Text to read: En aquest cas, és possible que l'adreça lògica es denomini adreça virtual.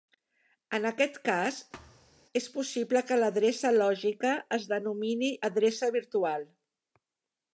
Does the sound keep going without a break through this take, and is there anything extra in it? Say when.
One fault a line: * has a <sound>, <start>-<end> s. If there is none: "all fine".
* has a thud, 1.7-2.3 s